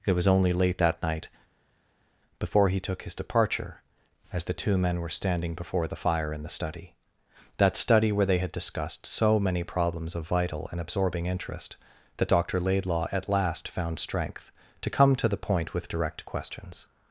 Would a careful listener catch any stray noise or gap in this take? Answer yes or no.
no